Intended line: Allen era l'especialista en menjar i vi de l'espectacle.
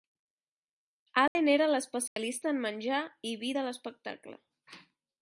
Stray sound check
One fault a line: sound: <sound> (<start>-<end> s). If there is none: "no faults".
sound: dropout (1.3-1.4 s)
sound: dropout (2.1-2.2 s)